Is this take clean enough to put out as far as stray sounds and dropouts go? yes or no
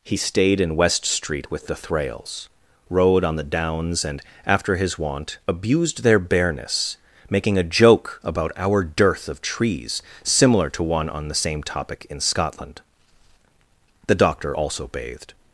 yes